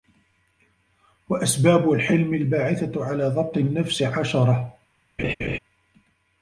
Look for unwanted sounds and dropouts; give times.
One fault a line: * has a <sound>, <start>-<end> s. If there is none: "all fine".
* has a laugh, 5.2-5.6 s